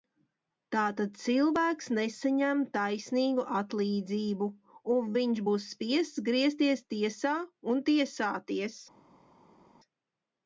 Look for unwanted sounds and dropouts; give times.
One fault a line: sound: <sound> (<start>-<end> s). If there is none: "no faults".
no faults